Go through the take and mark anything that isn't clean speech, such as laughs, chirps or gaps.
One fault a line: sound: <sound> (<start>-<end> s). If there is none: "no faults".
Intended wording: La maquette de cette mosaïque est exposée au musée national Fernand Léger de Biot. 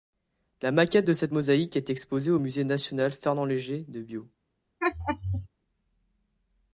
sound: laugh (4.8-5.5 s)